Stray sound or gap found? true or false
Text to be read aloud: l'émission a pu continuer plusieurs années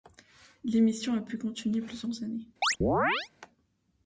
true